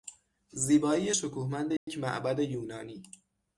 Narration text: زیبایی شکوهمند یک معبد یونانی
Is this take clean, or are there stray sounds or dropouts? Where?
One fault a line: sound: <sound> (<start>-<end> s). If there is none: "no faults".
sound: dropout (1.8-1.9 s)